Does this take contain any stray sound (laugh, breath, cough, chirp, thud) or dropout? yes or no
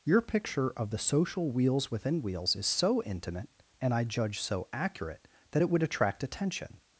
no